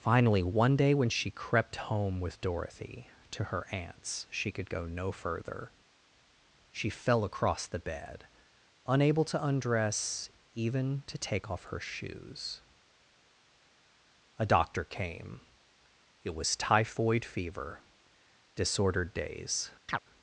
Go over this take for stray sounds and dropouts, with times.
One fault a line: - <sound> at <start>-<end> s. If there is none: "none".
- chirp at 19.9-20.0 s